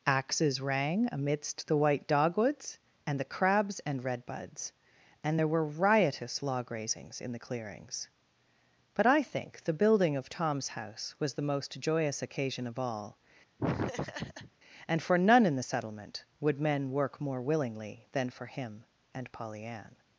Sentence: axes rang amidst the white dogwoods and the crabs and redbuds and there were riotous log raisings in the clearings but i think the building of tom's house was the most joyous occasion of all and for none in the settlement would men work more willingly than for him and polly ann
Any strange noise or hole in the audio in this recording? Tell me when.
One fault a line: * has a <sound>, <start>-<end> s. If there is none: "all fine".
* has a laugh, 13.6-14.5 s